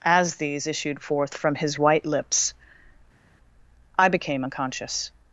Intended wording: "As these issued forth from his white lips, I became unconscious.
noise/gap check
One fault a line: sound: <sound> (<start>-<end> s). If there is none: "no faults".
no faults